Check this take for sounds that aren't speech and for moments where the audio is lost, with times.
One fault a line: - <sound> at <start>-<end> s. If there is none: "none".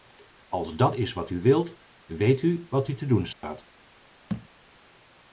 - dropout at 3.3-3.4 s
- thud at 4.3-4.5 s